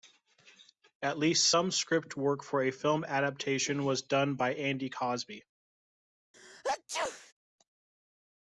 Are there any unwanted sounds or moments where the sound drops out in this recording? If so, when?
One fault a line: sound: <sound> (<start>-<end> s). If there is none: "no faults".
sound: sneeze (6.3-7.3 s)